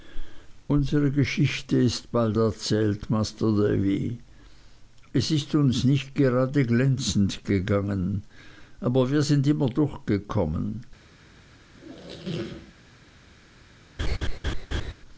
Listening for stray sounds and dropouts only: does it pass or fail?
fail